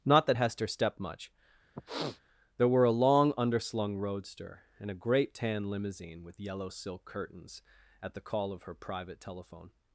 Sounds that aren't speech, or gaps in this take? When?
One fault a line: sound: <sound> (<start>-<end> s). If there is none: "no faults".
sound: sniff (1.7-2.2 s)